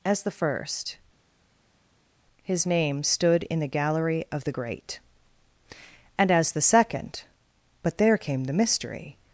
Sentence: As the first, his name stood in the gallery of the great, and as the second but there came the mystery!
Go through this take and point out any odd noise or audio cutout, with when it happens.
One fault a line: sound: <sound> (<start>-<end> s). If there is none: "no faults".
no faults